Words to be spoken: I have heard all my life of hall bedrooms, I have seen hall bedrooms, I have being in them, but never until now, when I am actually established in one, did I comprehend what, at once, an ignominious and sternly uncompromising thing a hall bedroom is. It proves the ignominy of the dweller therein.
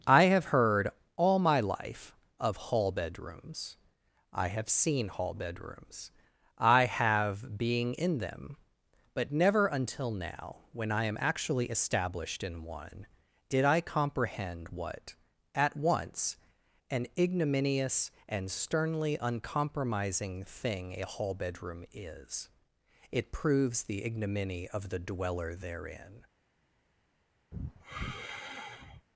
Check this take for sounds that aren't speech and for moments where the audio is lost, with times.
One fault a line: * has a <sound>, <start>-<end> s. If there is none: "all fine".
* has a sigh, 27.5-29.1 s